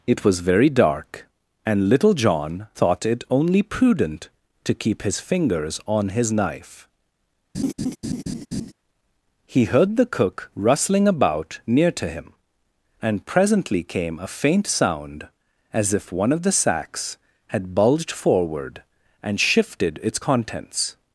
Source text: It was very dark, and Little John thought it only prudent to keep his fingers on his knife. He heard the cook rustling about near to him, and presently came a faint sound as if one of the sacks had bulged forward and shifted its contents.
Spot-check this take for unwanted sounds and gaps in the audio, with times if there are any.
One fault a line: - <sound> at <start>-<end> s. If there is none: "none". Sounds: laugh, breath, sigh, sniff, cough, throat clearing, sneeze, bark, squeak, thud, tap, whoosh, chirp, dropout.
- laugh at 7.5-8.7 s